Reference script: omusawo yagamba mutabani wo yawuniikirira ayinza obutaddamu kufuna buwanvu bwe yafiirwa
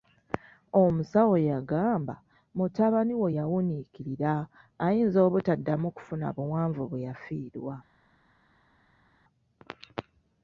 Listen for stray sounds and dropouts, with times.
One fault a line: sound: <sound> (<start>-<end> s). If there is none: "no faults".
no faults